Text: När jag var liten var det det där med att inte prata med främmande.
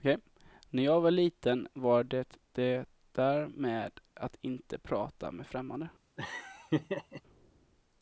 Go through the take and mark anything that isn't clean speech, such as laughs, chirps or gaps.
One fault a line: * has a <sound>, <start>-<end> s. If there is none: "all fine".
* has a laugh, 6.2-7.2 s